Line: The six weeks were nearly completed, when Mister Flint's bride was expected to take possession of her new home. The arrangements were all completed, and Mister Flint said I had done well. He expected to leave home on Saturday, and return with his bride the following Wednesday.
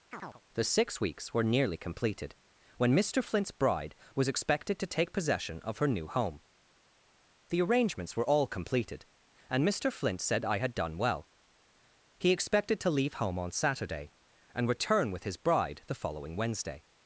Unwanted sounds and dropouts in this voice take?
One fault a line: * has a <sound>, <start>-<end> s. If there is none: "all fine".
* has a chirp, 0.1-0.4 s